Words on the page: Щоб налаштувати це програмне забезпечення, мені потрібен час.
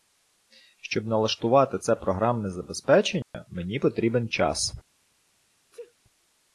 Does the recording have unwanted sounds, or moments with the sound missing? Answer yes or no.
yes